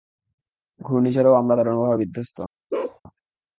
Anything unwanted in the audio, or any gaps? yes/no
yes